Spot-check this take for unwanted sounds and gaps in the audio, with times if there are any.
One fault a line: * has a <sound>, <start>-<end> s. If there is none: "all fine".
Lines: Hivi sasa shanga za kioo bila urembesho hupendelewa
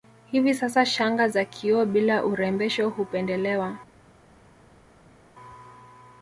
all fine